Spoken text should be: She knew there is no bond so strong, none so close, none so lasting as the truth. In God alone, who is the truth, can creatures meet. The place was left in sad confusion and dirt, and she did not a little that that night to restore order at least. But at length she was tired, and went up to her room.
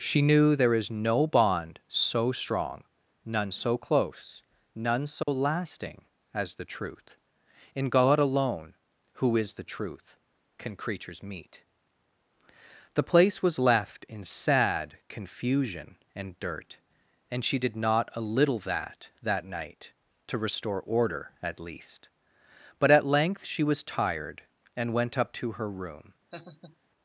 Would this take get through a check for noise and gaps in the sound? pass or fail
fail